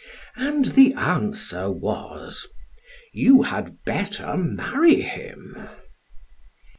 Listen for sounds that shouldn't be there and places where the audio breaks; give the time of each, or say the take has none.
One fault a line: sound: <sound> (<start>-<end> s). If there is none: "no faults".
no faults